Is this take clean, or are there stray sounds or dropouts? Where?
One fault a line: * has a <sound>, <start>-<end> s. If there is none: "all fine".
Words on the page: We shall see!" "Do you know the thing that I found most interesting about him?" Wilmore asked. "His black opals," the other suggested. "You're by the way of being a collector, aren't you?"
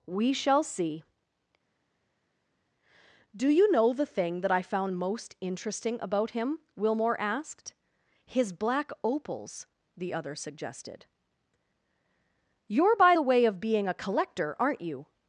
all fine